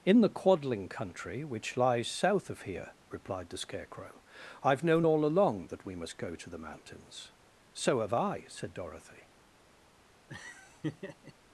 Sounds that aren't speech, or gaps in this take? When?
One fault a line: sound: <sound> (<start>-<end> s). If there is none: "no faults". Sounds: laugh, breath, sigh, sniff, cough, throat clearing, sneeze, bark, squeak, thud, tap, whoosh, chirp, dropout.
sound: laugh (10.3-11.3 s)